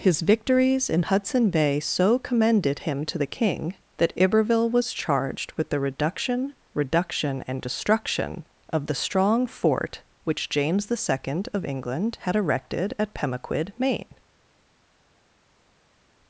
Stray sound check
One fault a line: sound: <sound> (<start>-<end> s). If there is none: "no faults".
no faults